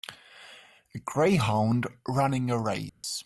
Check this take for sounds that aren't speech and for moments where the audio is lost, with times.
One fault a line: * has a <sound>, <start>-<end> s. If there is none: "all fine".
* has a dropout, 2.9-3.0 s